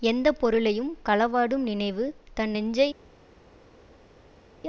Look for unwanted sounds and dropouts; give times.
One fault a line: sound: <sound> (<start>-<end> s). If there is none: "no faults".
no faults